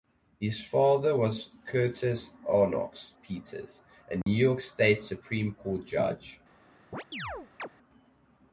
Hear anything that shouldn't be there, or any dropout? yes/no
yes